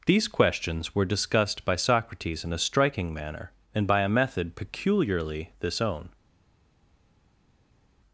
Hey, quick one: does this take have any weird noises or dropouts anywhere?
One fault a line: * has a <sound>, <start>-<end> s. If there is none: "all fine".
all fine